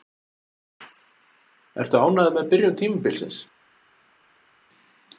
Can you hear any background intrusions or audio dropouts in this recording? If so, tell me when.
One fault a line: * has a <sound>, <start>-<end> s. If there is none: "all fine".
all fine